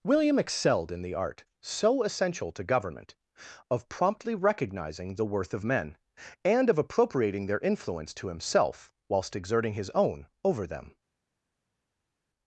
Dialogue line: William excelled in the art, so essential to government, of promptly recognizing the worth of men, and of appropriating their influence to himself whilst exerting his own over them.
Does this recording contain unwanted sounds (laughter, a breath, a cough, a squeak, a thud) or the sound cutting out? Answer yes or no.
no